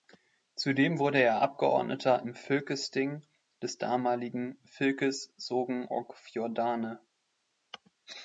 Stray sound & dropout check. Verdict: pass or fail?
pass